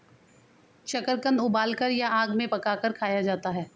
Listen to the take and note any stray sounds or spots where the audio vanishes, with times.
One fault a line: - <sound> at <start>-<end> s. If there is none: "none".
none